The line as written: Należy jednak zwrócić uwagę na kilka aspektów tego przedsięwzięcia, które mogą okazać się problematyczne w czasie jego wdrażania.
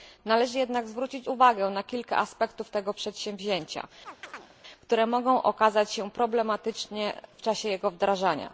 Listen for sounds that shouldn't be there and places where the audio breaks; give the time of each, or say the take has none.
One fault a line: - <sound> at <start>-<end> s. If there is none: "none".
- chirp at 4.0-4.5 s